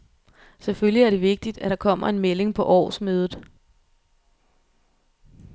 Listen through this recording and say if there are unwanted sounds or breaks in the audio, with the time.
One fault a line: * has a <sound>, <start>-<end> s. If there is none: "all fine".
all fine